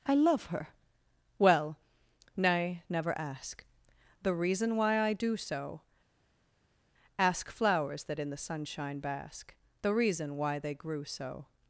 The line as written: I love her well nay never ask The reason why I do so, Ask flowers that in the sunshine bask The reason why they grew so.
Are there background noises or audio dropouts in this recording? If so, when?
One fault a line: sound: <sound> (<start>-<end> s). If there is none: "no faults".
no faults